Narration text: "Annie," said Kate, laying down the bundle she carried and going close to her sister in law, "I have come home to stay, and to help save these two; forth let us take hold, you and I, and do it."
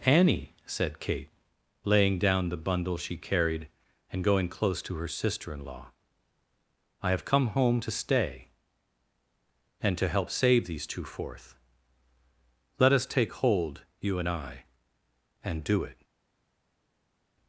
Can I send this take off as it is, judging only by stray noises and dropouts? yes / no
yes